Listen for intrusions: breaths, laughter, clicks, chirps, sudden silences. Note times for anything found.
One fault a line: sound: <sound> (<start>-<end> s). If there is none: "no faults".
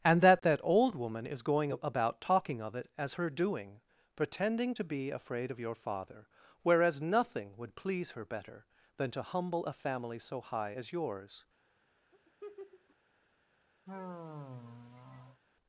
sound: laugh (12.1-13.0 s)
sound: sigh (13.8-15.4 s)